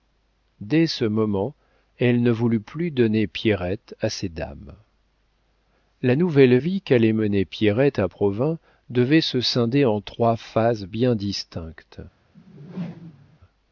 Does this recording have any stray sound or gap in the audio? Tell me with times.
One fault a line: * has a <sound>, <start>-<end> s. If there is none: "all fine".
* has a whoosh, 12.3-13.4 s